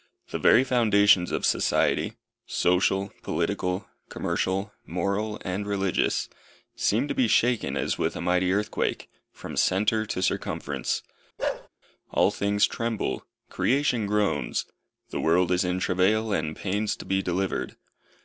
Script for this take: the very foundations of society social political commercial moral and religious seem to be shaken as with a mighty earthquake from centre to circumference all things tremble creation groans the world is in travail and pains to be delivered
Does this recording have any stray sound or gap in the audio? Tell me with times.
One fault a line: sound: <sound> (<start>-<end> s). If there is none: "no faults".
sound: bark (11.4-11.7 s)